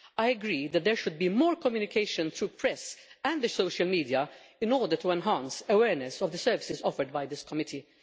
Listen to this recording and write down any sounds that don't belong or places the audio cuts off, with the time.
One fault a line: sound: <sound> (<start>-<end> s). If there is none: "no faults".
no faults